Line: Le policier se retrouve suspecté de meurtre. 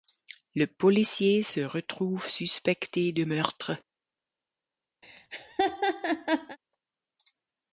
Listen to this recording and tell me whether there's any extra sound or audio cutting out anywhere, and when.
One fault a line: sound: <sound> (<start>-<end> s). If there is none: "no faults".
sound: laugh (5.0-6.6 s)